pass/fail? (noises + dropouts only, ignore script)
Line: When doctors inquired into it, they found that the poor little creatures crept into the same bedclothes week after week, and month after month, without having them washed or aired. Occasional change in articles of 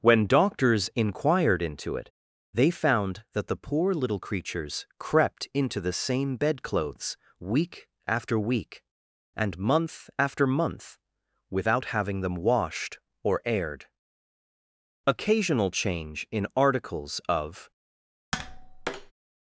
fail